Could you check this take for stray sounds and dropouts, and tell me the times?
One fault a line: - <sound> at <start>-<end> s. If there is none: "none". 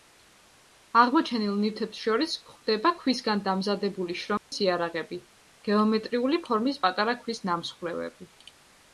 - dropout at 4.4-4.5 s